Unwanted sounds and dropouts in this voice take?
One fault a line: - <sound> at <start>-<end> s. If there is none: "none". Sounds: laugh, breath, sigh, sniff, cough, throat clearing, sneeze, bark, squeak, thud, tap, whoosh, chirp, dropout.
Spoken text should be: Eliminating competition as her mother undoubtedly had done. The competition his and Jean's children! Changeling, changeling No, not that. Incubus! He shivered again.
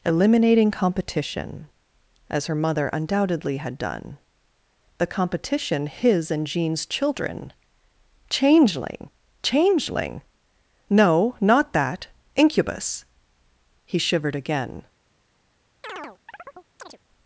- chirp at 15.8-17.0 s